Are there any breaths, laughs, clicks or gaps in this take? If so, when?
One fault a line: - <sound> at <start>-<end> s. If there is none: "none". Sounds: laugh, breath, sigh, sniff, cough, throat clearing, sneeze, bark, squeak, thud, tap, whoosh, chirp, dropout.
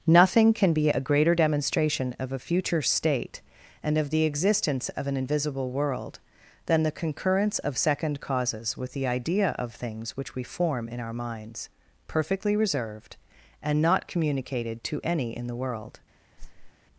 - whoosh at 16.4-16.7 s